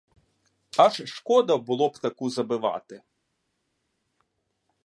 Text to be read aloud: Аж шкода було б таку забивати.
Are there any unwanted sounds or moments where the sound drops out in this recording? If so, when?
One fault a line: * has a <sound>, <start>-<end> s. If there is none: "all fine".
all fine